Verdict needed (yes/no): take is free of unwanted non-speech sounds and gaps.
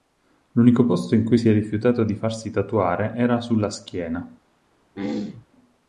no